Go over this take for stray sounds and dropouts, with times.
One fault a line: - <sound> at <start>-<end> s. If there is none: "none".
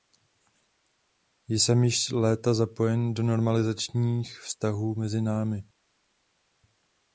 none